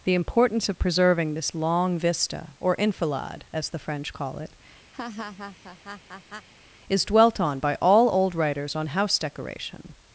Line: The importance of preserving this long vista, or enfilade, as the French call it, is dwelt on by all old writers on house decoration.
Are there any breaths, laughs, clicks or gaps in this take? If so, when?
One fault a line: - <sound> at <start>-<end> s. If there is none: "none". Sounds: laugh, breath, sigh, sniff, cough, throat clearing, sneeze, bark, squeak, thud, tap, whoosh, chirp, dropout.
- laugh at 4.9-6.5 s